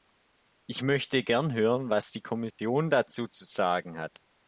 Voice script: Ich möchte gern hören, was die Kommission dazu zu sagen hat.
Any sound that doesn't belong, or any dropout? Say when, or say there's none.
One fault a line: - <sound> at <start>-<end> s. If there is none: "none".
- dropout at 2.5-2.6 s